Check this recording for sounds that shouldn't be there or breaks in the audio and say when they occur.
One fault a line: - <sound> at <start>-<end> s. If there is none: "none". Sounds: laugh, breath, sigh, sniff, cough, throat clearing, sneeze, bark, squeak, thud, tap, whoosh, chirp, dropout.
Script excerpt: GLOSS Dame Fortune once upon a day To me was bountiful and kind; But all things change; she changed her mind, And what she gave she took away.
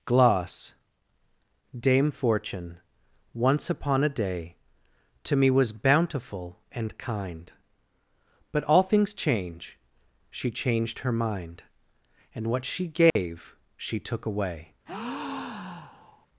- dropout at 13.1-13.2 s
- breath at 14.9-16.3 s